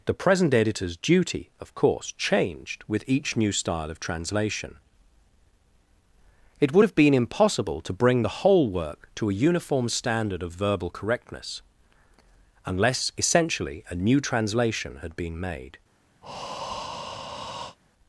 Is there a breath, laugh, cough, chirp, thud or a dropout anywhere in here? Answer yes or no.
yes